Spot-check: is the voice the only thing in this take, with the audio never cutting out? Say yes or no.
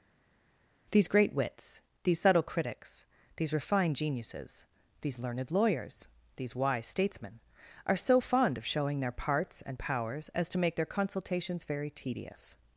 yes